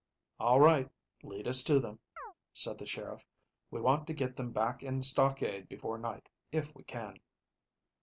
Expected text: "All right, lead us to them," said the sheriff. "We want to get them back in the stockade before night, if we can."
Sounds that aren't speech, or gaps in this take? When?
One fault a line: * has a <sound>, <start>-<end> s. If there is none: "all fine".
* has a chirp, 2.2-2.3 s